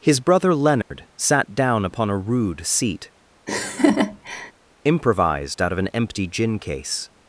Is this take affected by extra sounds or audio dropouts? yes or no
yes